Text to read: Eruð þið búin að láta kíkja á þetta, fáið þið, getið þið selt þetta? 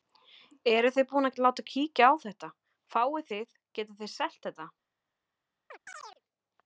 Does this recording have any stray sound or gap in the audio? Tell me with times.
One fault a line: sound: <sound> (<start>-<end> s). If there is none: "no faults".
sound: chirp (5.7-6.2 s)